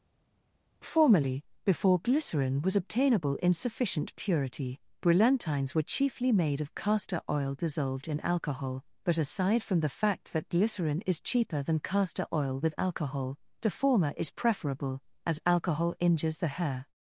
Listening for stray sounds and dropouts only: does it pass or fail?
pass